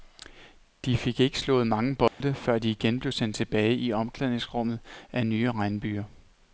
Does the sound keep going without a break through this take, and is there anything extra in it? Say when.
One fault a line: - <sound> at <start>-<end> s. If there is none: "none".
- dropout at 2.1-2.2 s